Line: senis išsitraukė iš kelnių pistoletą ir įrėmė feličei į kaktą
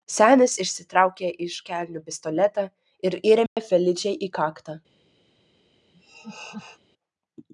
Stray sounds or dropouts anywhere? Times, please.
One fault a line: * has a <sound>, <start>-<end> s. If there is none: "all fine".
* has a dropout, 3.5-3.6 s
* has a laugh, 5.9-6.8 s